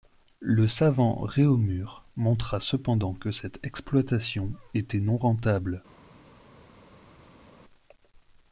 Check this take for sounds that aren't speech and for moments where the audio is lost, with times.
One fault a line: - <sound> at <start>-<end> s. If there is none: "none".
none